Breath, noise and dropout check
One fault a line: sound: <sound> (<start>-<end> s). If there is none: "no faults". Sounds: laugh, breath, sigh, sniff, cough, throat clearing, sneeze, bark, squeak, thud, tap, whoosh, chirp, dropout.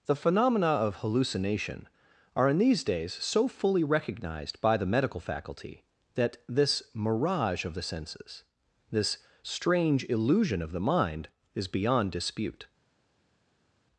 no faults